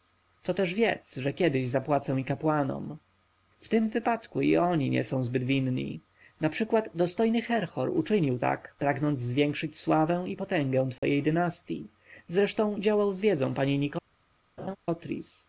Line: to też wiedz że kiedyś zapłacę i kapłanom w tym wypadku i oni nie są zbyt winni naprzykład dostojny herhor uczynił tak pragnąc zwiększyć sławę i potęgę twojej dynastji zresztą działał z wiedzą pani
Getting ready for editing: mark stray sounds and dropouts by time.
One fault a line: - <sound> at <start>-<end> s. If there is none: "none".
- dropout at 11.0-11.0 s
- laugh at 14.6-14.8 s